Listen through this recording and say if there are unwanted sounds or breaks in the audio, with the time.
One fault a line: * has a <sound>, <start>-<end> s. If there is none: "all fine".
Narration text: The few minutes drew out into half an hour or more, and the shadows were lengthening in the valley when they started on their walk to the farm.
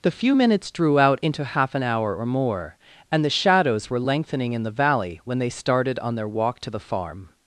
all fine